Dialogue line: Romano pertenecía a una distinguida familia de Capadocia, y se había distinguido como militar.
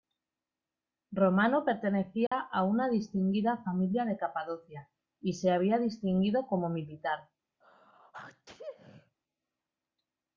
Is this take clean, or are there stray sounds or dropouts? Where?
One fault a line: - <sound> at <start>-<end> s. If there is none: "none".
- dropout at 2.3-2.3 s
- sneeze at 7.6-9.2 s